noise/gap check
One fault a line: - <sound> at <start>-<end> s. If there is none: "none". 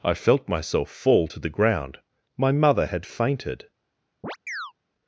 - chirp at 4.2-4.7 s